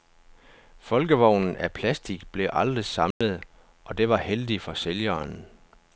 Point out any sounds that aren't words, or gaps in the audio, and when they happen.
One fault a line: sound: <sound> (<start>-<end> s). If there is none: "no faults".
sound: dropout (3.1-3.2 s)